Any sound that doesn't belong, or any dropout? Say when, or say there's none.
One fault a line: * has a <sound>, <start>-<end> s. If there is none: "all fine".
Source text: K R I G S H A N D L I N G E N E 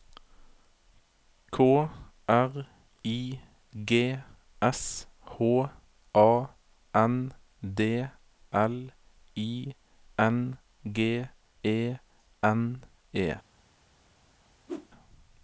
* has a whoosh, 14.7-14.9 s